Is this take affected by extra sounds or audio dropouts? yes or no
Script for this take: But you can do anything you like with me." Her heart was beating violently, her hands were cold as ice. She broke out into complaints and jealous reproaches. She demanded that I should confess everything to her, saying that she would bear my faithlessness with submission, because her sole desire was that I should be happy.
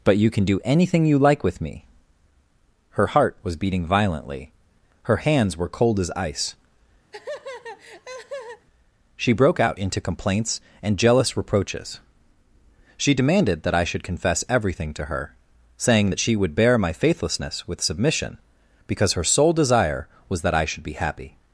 yes